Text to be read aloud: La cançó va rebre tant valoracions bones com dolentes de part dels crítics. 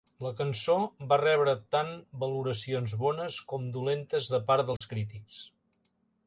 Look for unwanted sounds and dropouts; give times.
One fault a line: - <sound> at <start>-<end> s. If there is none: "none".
- dropout at 4.8-4.8 s